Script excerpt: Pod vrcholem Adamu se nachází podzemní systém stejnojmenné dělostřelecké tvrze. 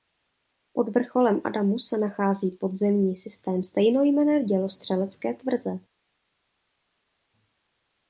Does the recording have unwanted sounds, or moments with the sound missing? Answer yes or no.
no